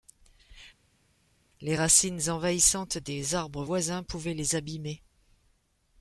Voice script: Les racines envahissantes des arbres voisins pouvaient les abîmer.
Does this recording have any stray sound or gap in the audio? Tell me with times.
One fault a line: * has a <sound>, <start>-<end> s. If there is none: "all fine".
all fine